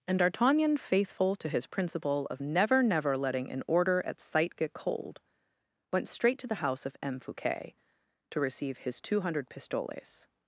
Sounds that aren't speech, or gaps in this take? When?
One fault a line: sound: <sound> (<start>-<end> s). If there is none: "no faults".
no faults